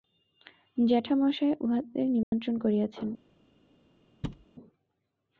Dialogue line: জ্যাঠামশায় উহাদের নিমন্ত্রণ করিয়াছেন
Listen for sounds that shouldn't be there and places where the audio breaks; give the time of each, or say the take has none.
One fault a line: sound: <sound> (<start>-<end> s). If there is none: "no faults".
sound: dropout (2.2-2.3 s)
sound: thud (4.2-4.5 s)